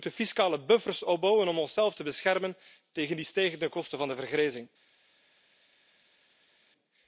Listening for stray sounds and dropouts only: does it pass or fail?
pass